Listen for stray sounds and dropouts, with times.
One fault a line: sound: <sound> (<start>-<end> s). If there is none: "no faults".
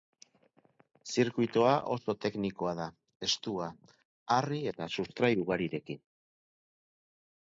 no faults